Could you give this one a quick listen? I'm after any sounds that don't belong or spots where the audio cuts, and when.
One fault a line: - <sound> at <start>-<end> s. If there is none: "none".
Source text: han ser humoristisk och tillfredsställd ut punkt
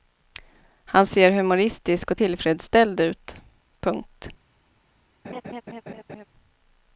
- laugh at 5.2-6.2 s